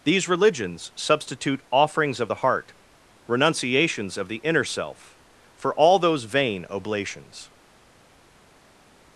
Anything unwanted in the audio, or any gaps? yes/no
no